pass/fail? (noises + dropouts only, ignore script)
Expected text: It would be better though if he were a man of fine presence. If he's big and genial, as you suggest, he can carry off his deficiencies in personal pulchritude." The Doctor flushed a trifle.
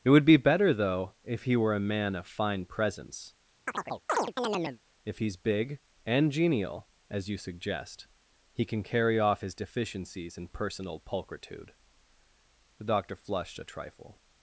fail